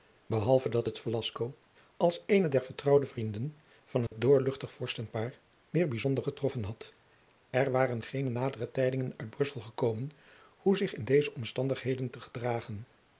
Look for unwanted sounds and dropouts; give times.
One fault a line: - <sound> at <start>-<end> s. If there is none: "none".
- dropout at 4.1-4.1 s